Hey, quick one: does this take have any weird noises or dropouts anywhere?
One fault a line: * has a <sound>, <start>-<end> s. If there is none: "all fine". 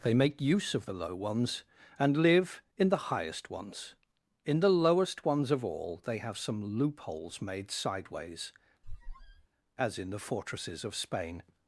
* has a squeak, 8.8-9.5 s